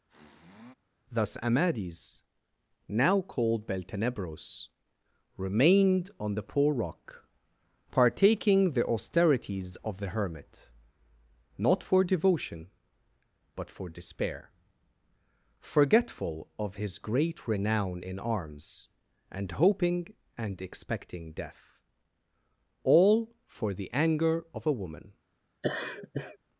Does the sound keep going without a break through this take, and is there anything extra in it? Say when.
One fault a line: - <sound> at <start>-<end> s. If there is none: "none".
- sniff at 0.1-0.7 s
- laugh at 25.6-26.4 s